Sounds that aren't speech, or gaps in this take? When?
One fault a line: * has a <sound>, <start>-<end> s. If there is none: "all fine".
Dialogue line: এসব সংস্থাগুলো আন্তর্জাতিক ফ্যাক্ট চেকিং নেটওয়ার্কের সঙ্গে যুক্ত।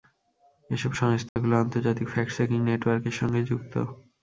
* has a dropout, 1.3-1.4 s